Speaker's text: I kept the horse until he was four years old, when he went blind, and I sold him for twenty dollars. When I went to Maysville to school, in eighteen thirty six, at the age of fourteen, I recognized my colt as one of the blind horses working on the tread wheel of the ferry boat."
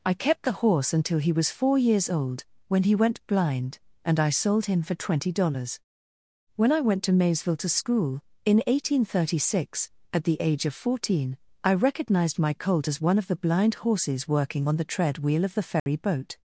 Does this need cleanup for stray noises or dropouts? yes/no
yes